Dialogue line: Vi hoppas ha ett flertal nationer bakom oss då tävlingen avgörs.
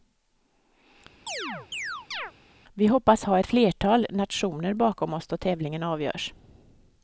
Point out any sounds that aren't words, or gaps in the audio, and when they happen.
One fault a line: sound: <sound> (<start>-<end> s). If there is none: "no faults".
sound: chirp (1.3-2.3 s)